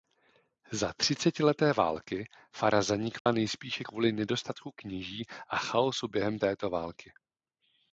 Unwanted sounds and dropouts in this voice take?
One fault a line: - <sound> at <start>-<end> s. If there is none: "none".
- dropout at 3.2-3.3 s